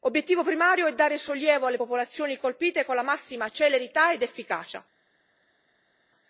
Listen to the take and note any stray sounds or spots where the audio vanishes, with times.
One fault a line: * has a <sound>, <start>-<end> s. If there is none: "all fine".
all fine